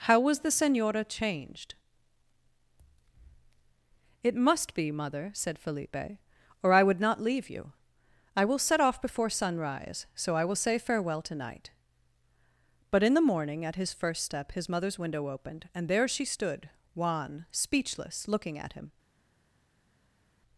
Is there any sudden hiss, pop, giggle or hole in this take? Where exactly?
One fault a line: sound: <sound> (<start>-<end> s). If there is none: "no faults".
no faults